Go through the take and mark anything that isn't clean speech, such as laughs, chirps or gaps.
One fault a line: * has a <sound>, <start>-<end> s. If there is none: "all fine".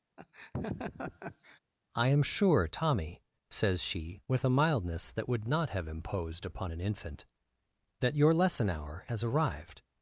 * has a laugh, 0.2-1.6 s